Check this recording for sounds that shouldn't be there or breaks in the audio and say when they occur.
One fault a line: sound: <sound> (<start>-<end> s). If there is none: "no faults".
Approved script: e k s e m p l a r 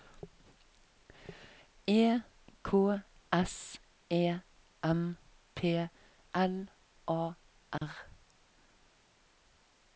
sound: dropout (7.8-7.8 s)